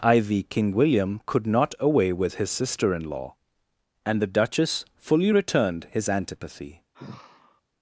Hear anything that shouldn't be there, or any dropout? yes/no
yes